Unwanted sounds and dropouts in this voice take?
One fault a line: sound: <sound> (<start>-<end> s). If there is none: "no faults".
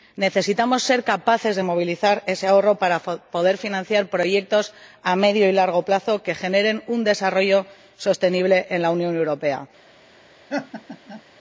sound: laugh (10.5-11.2 s)